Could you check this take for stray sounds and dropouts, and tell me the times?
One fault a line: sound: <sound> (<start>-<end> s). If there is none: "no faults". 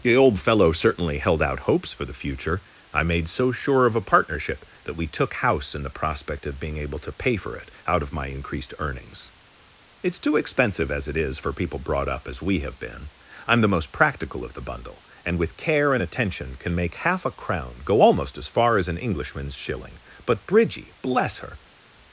no faults